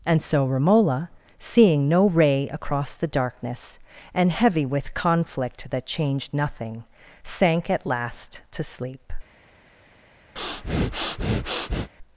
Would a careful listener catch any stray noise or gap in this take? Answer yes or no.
yes